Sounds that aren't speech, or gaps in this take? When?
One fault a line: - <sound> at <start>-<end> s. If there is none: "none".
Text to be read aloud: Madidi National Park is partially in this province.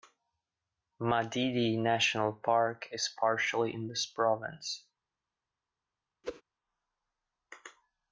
- whoosh at 6.2-6.4 s